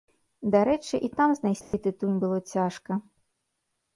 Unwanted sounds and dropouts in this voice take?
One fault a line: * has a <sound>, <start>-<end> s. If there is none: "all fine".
* has a dropout, 1.6-1.7 s